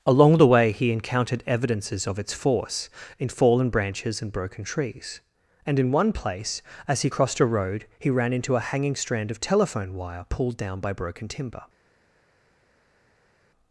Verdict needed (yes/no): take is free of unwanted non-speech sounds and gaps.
yes